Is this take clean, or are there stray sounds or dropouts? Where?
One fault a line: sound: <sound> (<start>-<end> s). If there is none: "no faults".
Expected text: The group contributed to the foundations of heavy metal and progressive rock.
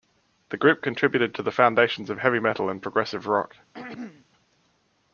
sound: throat clearing (3.7-4.3 s)